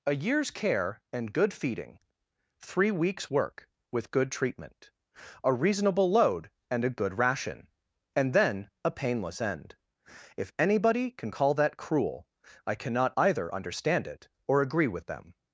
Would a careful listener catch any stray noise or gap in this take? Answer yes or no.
no